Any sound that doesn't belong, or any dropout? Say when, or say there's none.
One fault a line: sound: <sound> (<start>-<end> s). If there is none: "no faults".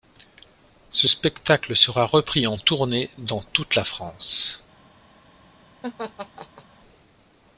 sound: laugh (5.8-6.6 s)